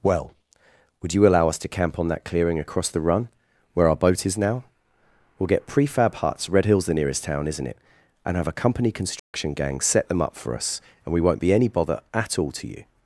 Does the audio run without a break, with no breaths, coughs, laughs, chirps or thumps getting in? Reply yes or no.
no